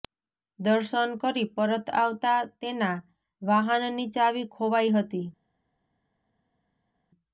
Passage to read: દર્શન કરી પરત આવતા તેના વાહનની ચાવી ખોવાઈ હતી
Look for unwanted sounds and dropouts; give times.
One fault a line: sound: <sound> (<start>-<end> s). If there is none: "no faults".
no faults